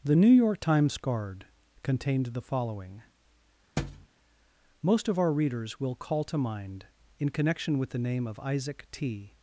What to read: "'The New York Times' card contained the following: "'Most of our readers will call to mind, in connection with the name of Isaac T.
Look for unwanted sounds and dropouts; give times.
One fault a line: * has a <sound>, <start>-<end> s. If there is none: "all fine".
* has a thud, 3.8-4.1 s